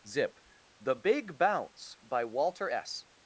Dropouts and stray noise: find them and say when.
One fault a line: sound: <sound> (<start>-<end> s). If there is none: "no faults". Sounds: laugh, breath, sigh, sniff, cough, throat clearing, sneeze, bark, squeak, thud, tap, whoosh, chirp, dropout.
no faults